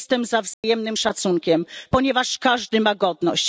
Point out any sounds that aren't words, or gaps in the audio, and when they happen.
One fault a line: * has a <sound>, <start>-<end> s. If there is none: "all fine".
* has a dropout, 0.5-0.6 s